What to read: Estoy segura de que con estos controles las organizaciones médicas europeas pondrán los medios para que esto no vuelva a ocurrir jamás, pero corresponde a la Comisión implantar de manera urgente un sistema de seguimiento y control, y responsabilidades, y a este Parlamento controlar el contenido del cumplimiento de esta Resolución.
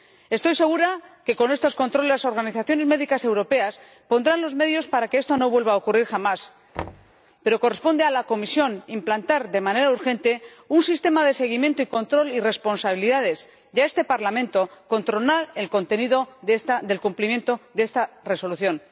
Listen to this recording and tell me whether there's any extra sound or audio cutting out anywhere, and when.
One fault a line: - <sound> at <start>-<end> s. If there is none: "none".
- thud at 6.7-7.1 s